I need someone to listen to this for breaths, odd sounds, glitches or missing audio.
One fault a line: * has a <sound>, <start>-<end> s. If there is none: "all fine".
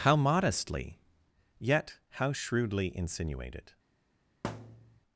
* has a thud, 4.4-5.0 s